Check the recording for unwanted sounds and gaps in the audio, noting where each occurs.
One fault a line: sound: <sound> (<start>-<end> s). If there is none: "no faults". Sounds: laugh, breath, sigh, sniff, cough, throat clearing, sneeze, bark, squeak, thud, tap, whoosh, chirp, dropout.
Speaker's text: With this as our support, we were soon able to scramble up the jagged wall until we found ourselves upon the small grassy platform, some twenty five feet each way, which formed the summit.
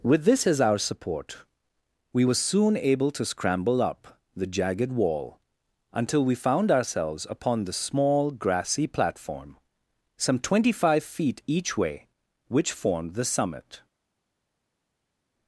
no faults